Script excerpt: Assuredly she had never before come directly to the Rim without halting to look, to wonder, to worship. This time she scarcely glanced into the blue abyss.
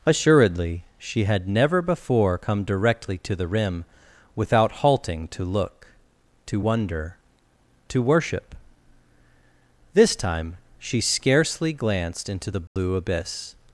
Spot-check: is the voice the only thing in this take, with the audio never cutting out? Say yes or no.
no